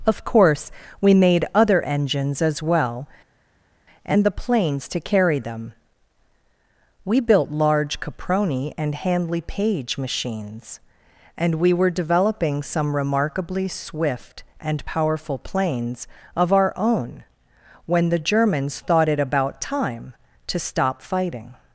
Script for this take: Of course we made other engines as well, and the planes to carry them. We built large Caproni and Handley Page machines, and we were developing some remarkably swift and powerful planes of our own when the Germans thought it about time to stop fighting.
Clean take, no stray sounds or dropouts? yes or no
yes